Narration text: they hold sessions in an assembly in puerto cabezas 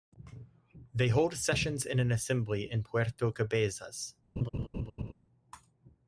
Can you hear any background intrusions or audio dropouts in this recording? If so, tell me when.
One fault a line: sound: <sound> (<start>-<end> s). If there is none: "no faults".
sound: laugh (4.4-5.1 s)